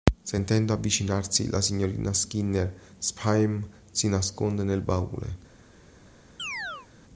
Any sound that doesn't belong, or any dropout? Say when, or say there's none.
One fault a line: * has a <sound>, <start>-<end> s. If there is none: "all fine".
* has a chirp, 6.4-6.9 s